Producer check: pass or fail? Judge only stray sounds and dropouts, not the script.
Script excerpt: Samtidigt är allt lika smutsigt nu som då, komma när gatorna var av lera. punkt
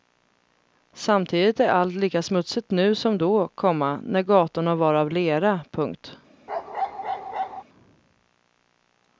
fail